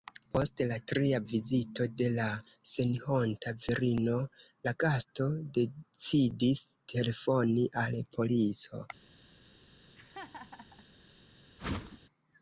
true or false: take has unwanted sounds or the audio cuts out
true